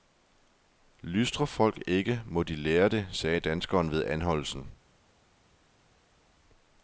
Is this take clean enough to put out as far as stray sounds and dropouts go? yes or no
yes